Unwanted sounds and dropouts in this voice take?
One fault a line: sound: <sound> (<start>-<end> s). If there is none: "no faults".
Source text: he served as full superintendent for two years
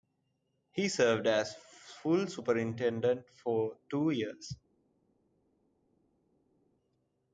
no faults